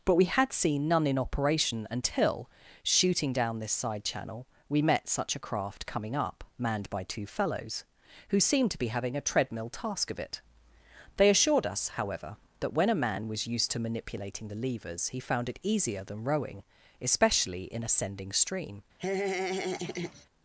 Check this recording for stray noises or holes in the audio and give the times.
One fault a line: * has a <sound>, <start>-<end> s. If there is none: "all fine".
* has a laugh, 19.0-20.3 s